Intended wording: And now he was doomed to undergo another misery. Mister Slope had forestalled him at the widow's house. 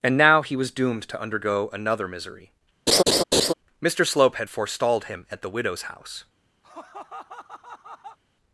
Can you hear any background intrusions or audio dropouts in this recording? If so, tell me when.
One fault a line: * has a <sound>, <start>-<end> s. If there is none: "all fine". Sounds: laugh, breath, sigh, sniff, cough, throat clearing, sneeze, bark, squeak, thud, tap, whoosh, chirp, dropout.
* has a laugh, 2.9-3.5 s
* has a laugh, 6.6-8.2 s